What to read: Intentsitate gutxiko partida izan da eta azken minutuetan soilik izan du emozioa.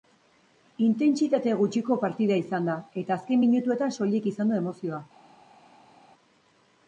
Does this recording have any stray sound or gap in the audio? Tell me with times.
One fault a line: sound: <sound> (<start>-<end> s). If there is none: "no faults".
no faults